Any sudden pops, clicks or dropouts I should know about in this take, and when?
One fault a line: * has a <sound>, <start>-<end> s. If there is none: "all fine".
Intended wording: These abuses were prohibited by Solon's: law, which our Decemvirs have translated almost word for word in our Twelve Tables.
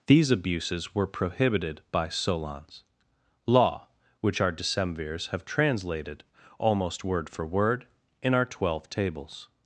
all fine